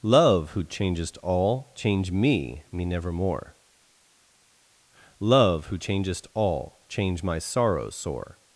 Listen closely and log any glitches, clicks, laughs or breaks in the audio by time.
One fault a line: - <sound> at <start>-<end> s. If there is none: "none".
none